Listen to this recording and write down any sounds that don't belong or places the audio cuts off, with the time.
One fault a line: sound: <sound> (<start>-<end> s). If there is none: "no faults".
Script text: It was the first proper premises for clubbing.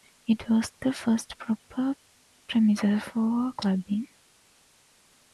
no faults